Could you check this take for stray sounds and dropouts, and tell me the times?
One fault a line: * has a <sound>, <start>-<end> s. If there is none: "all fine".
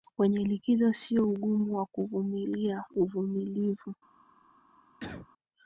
* has a cough, 5.0-5.3 s